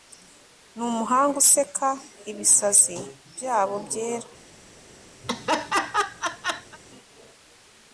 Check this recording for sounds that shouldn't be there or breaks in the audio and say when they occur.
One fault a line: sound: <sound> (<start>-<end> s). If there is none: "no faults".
sound: laugh (5.2-6.8 s)